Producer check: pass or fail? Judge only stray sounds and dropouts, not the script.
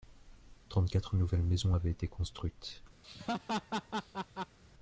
fail